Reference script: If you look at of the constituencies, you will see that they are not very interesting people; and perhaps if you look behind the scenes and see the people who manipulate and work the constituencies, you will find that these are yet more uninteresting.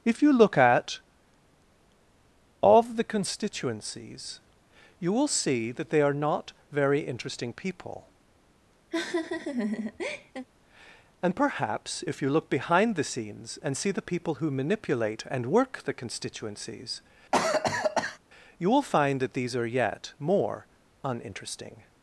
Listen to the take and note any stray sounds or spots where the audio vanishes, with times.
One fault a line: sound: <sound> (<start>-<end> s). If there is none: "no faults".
sound: laugh (8.9-10.5 s)
sound: cough (17.3-18.2 s)